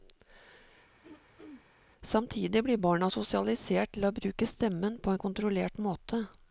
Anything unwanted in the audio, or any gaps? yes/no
yes